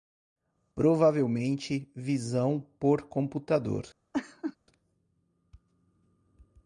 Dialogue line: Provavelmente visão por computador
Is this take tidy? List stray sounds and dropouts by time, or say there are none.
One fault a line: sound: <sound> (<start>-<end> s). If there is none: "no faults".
sound: laugh (4.1-4.6 s)